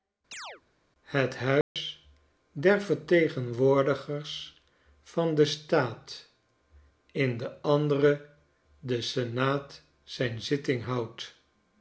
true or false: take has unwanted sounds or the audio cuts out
true